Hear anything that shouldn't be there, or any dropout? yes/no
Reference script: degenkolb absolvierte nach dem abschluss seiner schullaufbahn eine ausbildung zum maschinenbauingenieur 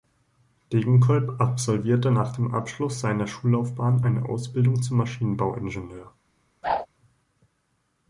yes